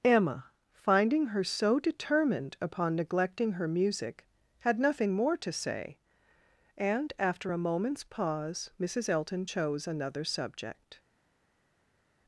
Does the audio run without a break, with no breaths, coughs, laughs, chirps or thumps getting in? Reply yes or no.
yes